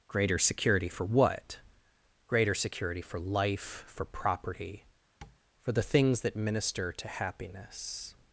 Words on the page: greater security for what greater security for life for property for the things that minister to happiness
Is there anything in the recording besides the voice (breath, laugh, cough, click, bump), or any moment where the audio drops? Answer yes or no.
yes